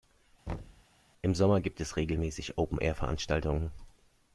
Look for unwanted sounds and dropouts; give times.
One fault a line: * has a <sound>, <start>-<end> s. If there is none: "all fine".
* has a thud, 0.5-0.8 s